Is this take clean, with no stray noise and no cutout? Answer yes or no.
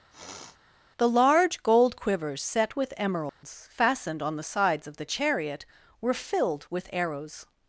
no